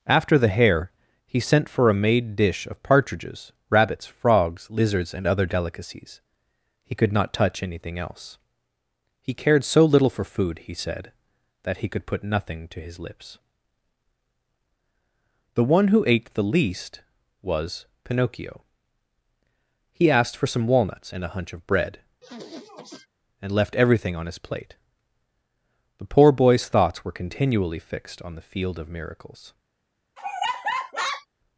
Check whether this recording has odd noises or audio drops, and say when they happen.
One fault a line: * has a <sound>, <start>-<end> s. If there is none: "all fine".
* has a sniff, 22.2-23.1 s
* has a laugh, 30.2-31.3 s